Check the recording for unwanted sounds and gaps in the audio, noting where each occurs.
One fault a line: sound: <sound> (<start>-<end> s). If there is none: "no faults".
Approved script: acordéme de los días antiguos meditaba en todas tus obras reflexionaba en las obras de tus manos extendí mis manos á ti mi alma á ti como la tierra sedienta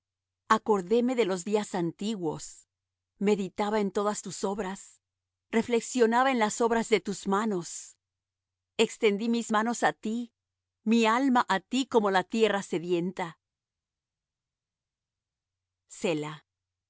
no faults